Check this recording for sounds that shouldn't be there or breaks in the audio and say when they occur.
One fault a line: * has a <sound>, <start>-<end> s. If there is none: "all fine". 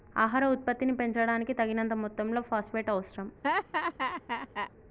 * has a laugh, 3.4-4.7 s